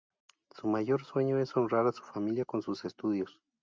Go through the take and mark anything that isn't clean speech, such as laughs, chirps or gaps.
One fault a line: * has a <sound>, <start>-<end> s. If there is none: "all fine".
all fine